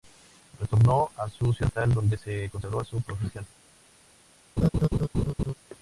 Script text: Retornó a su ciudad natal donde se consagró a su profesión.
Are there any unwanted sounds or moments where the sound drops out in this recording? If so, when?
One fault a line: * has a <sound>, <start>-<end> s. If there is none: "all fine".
* has a laugh, 4.6-5.5 s